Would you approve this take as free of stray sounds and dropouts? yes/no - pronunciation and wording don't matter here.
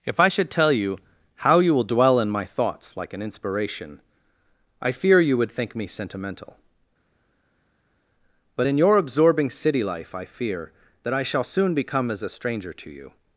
yes